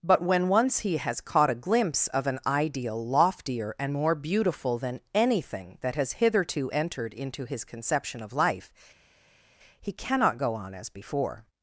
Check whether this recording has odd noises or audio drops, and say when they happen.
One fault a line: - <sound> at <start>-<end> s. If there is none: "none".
none